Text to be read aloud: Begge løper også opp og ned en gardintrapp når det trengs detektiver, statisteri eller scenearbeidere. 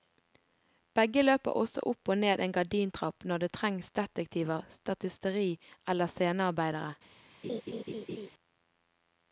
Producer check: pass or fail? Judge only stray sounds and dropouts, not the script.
fail